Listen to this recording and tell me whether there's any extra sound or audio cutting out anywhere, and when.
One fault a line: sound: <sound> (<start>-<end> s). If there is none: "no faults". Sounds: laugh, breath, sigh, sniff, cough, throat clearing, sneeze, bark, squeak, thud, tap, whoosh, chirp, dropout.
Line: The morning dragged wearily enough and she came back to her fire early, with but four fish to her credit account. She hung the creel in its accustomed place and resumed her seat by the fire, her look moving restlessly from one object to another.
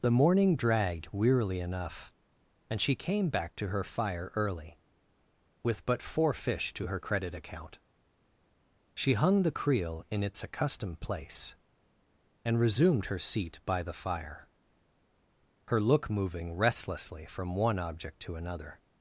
no faults